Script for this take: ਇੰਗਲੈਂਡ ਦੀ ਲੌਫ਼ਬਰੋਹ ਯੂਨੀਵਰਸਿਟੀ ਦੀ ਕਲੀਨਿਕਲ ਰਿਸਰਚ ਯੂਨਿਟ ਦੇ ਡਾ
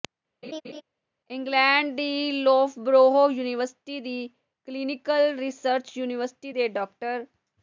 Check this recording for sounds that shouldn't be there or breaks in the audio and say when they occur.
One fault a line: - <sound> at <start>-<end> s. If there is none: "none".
- laugh at 0.4-0.8 s